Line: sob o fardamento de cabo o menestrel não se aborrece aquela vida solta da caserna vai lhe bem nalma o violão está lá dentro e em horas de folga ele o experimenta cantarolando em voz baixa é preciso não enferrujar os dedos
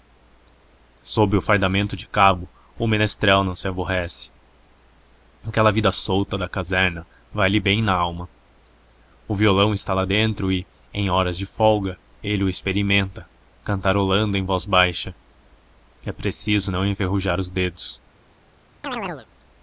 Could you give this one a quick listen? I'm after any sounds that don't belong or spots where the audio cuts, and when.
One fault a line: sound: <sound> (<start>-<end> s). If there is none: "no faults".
sound: chirp (18.8-19.3 s)